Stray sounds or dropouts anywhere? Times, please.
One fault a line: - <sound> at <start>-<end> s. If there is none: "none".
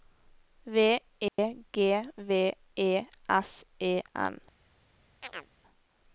- dropout at 1.3-1.4 s
- chirp at 5.2-5.5 s